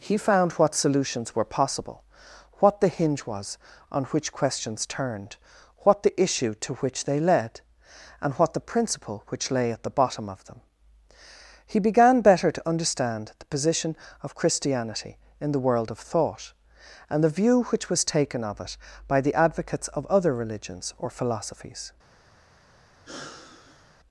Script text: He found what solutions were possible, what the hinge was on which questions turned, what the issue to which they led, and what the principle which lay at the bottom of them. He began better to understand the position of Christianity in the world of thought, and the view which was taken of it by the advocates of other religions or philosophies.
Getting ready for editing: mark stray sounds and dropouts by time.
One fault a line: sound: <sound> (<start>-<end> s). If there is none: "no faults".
sound: sigh (23.0-23.9 s)